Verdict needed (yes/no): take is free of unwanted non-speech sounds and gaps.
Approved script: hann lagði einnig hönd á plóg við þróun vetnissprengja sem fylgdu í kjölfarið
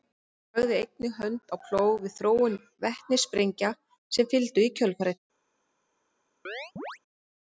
no